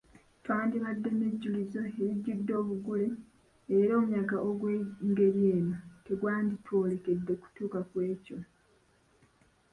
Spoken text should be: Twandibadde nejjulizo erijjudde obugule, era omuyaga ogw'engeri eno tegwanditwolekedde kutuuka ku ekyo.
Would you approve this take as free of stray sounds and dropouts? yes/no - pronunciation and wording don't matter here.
yes